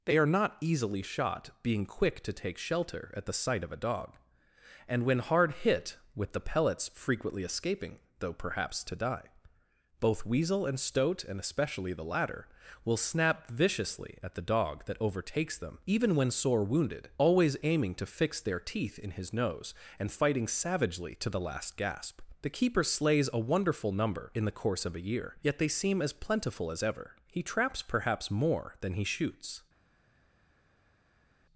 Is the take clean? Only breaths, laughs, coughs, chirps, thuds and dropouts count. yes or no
yes